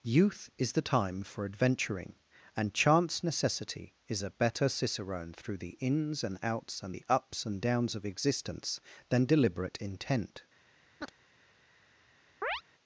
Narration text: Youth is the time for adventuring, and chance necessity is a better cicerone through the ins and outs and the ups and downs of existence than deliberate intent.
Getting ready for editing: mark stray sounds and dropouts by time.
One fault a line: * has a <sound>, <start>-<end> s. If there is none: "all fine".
* has a chirp, 11.0-11.1 s
* has a chirp, 12.4-12.6 s